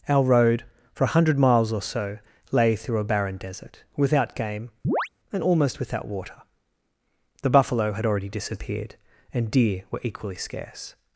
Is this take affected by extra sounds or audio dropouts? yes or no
yes